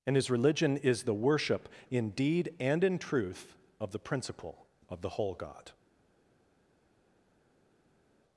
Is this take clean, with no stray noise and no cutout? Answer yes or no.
yes